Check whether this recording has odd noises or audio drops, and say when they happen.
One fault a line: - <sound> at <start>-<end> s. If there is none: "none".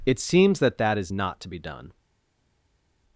none